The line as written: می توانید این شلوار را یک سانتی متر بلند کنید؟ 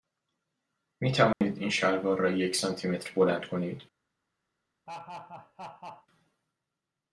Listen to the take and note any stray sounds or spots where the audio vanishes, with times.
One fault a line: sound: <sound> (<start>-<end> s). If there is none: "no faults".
sound: dropout (1.3-1.4 s)
sound: laugh (4.9-6.1 s)